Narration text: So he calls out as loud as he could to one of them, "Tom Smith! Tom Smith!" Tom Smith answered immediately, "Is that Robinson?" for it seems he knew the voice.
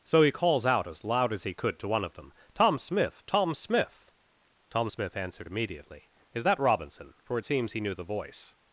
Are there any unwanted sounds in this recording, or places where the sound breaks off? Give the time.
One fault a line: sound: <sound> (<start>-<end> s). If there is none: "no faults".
no faults